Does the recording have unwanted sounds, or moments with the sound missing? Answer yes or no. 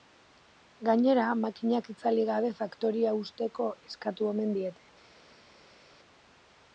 no